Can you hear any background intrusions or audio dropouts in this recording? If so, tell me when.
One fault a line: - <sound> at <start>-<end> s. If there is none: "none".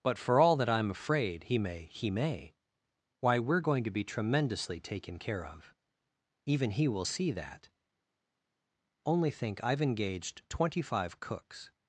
none